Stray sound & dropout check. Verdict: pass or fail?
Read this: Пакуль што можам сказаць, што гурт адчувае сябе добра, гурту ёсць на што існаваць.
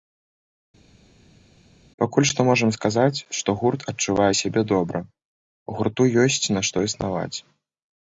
pass